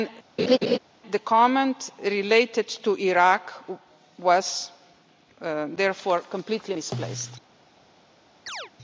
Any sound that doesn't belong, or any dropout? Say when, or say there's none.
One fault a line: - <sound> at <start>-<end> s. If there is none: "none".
- laugh at 0.4-0.8 s
- chirp at 8.5-8.7 s